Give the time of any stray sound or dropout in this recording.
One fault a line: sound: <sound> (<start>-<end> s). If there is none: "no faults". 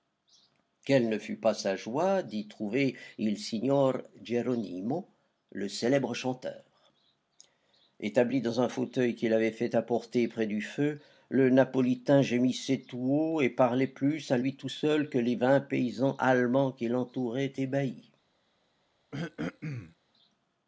sound: throat clearing (19.1-20.0 s)